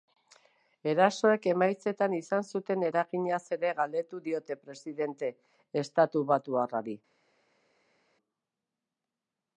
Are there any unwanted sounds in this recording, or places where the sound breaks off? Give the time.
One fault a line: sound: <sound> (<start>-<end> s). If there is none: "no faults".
no faults